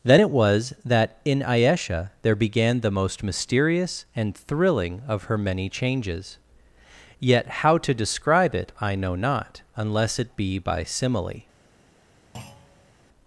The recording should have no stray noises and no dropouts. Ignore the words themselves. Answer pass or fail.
fail